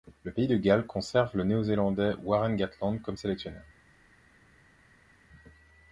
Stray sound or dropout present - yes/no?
no